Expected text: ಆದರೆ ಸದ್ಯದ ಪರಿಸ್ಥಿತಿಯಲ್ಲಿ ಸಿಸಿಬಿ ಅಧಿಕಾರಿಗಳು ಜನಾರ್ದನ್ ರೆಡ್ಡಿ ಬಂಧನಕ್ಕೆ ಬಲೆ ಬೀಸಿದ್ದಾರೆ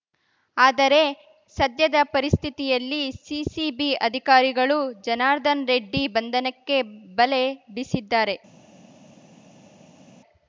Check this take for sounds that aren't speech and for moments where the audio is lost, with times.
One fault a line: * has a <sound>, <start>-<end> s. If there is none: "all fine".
all fine